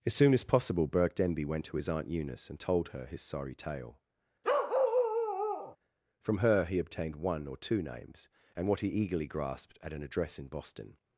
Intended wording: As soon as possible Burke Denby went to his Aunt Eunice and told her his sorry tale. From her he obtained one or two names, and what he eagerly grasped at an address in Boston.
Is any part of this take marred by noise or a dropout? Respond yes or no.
yes